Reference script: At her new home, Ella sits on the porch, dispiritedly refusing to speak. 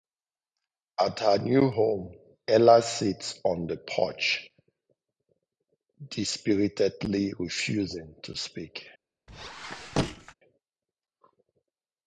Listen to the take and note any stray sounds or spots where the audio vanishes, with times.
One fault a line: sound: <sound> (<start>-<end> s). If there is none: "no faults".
sound: squeak (9.3-10.3 s)